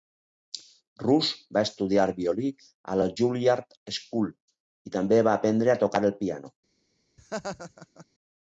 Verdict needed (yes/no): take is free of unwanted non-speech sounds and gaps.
no